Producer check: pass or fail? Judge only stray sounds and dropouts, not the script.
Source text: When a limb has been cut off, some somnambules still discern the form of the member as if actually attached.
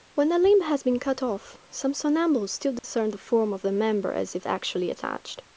fail